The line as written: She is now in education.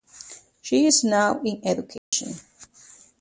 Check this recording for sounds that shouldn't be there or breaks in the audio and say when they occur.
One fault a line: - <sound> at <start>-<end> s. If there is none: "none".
- dropout at 2.0-2.1 s